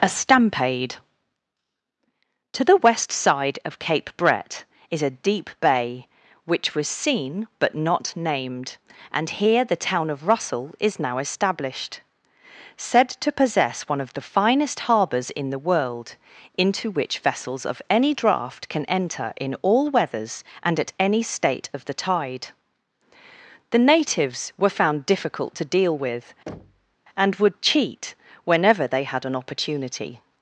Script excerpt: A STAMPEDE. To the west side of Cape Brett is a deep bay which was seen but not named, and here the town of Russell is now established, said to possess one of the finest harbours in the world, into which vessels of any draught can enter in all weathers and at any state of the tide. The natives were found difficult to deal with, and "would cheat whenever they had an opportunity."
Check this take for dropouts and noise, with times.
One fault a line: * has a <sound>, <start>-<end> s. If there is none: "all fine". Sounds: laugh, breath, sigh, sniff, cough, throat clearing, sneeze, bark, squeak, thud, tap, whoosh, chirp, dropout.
* has a thud, 26.5-27.0 s